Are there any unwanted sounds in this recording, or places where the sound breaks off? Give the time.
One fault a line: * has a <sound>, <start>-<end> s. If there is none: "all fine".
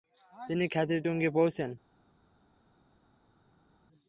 all fine